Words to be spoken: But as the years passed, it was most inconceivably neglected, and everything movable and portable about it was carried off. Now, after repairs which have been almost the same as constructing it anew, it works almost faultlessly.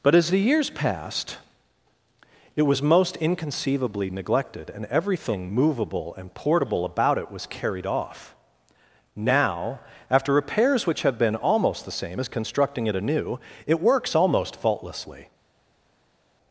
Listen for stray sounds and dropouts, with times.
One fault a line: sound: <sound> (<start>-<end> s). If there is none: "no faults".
no faults